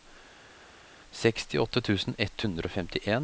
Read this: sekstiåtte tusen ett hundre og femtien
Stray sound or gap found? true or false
false